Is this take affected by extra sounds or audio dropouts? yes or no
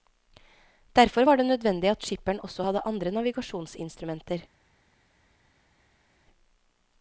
no